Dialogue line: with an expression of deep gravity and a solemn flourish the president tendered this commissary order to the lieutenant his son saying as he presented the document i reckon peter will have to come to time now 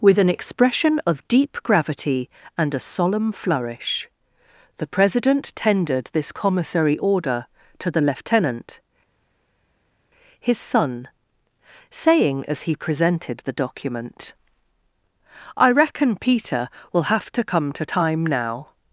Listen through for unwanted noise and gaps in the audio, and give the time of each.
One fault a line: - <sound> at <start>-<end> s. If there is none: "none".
none